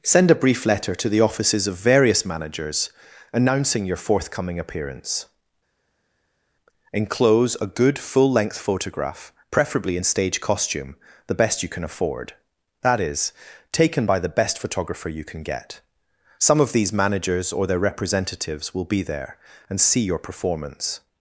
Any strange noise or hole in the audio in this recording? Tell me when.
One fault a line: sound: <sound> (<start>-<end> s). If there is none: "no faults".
no faults